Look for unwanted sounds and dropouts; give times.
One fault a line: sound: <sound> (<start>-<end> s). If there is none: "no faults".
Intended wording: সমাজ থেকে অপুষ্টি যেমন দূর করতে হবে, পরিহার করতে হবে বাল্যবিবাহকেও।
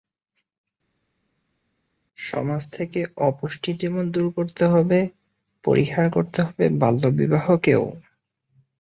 no faults